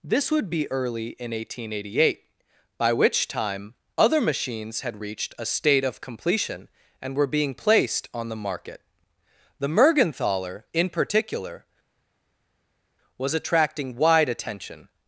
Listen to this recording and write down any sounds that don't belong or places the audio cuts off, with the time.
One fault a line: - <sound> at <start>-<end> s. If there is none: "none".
none